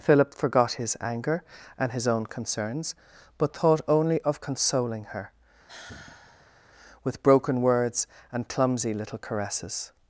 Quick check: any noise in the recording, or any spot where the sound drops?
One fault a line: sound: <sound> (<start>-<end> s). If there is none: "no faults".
sound: sigh (5.7-6.6 s)